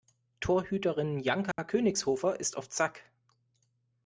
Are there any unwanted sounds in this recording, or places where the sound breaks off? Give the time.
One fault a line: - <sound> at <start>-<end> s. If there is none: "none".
- dropout at 1.5-1.6 s